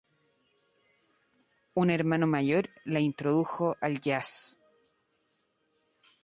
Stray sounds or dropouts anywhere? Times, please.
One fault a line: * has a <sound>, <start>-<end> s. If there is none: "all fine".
all fine